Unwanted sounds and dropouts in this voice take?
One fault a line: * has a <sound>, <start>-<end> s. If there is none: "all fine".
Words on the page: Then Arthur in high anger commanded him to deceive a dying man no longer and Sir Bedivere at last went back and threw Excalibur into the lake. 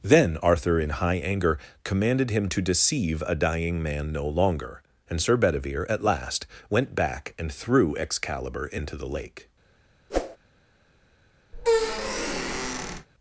* has a whoosh, 10.1-10.4 s
* has a squeak, 11.5-13.1 s